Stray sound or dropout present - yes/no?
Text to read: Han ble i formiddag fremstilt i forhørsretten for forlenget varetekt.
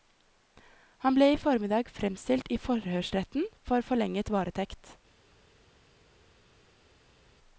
no